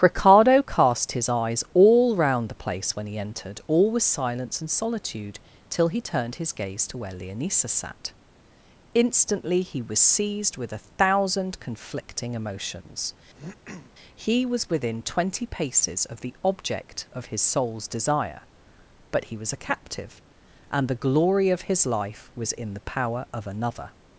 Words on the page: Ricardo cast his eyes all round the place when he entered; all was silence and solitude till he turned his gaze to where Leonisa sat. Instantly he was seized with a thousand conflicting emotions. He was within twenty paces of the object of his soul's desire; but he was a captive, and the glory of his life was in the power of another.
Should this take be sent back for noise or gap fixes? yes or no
yes